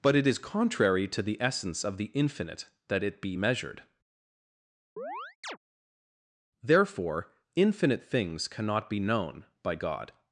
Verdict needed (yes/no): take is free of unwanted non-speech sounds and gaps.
no